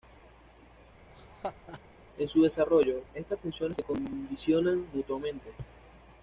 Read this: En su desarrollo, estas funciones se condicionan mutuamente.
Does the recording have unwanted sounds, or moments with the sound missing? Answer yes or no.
yes